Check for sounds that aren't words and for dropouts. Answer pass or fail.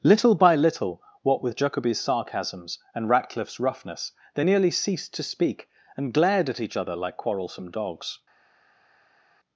pass